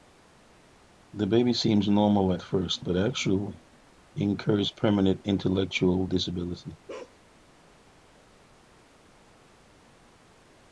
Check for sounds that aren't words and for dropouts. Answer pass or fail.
fail